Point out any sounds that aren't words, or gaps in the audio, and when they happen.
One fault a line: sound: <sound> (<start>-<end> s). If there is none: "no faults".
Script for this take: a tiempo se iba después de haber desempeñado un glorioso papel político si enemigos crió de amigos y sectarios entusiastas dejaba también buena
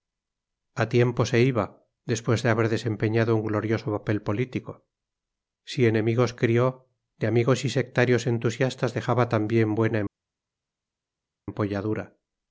no faults